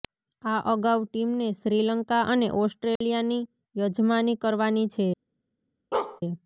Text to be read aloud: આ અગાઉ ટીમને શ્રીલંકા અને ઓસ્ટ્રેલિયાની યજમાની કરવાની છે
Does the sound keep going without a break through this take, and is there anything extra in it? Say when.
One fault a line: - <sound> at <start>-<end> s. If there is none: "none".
- dropout at 3.0-3.0 s
- bark at 5.9-6.2 s